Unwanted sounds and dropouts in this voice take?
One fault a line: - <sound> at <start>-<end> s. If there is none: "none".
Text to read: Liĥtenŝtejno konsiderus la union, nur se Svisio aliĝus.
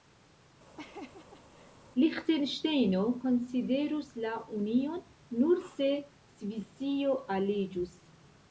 - laugh at 0.8-1.8 s